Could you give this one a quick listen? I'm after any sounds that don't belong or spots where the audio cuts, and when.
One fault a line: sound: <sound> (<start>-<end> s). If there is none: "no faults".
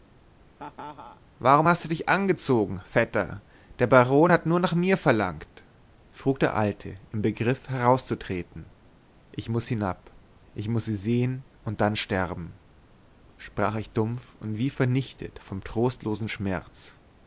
sound: laugh (0.6-1.2 s)